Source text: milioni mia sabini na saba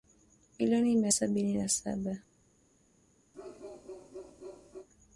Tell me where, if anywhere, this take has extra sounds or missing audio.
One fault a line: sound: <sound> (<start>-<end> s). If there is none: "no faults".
sound: bark (3.3-4.9 s)